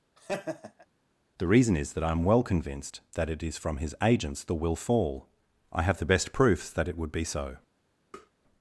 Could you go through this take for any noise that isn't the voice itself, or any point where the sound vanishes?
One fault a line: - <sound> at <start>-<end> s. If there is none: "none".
- laugh at 0.2-0.9 s
- tap at 8.1-8.3 s